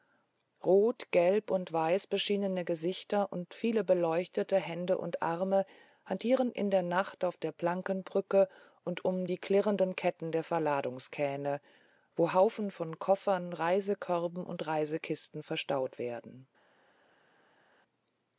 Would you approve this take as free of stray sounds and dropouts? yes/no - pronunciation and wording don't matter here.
yes